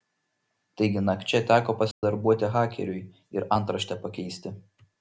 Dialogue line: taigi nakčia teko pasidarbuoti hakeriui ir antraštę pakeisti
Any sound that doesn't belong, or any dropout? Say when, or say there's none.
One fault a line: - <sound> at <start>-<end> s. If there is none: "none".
- dropout at 1.9-2.0 s